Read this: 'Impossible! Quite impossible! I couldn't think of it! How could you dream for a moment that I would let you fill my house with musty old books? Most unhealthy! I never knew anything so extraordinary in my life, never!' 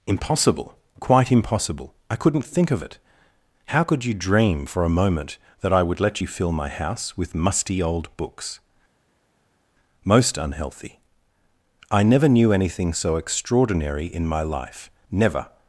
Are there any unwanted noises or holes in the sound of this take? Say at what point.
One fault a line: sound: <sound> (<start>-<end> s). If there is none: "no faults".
no faults